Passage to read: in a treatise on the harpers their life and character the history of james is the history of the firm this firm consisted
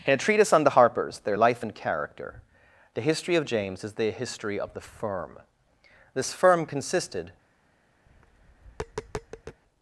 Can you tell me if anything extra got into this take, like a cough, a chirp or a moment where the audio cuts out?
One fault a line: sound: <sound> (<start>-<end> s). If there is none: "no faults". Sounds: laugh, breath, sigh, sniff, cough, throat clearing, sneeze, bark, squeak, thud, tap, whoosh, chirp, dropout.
sound: tap (8.1-9.6 s)